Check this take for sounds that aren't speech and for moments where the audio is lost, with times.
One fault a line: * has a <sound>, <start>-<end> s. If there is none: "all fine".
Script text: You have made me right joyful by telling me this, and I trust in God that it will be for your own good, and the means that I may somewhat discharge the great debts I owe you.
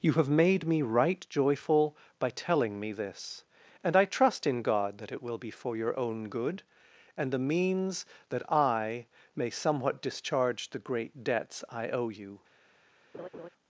* has a laugh, 13.1-13.5 s